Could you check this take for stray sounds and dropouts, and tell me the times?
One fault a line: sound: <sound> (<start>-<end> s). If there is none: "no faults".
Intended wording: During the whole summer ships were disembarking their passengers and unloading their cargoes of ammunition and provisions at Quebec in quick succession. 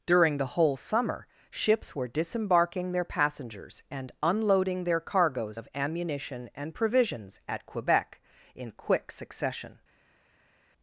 no faults